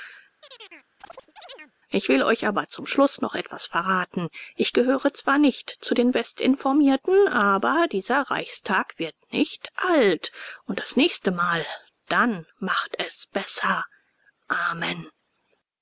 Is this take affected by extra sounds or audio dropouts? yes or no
yes